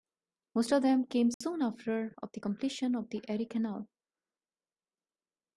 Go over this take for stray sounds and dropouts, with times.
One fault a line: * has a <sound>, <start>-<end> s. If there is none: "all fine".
* has a dropout, 1.3-1.4 s